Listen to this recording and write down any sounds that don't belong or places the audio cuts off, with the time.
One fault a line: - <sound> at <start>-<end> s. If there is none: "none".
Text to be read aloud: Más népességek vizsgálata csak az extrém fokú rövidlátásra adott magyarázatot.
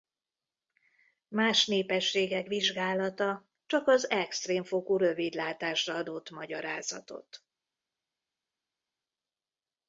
none